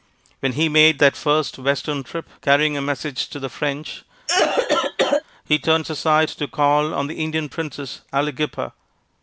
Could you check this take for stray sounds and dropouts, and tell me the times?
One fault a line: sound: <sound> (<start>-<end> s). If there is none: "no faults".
sound: cough (4.3-5.2 s)